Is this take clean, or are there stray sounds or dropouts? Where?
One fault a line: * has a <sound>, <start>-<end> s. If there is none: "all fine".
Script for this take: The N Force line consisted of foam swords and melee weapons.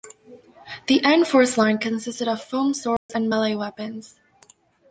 * has a dropout, 3.0-3.1 s